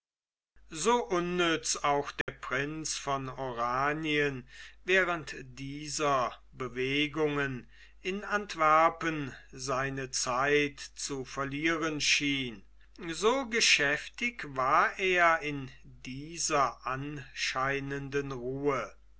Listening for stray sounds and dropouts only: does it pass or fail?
fail